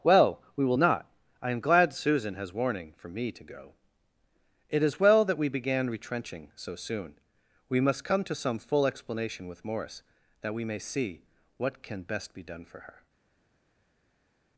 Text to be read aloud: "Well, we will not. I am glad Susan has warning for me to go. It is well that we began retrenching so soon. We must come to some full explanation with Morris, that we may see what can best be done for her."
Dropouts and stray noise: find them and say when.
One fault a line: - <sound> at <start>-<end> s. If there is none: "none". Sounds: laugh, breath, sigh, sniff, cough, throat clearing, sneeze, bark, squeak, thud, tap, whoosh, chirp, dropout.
none